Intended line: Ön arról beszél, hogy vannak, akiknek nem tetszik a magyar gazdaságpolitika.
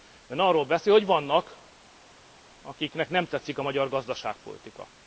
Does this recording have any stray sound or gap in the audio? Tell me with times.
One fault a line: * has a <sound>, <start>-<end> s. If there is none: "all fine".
all fine